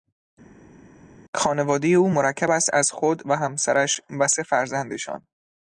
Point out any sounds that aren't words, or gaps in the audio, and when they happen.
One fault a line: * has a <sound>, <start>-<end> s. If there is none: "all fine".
all fine